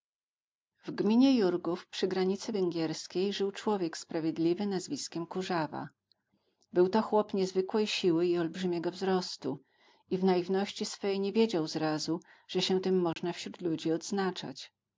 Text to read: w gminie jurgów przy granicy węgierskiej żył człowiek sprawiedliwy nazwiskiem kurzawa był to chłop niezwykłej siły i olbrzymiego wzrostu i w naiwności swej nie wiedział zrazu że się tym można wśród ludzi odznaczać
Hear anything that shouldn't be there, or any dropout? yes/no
yes